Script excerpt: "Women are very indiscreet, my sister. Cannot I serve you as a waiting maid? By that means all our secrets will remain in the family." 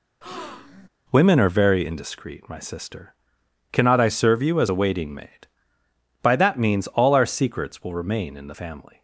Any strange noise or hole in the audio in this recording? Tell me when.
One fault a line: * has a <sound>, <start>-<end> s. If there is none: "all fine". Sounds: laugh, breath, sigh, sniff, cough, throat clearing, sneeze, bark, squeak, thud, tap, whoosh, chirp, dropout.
* has a breath, 0.2-0.9 s